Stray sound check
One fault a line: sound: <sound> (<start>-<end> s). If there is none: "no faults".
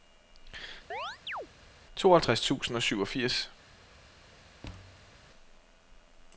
sound: chirp (0.9-1.5 s)
sound: thud (4.6-5.2 s)